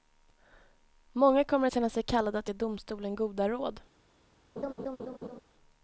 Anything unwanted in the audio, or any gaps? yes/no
yes